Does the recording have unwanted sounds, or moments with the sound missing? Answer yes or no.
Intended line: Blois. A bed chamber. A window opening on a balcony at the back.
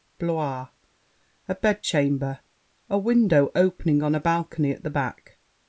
no